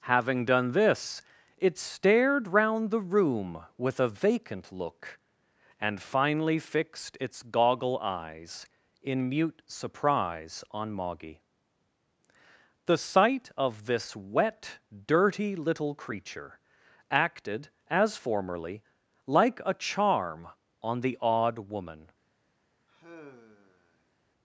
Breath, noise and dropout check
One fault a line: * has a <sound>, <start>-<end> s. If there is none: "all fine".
* has a sigh, 22.9-24.1 s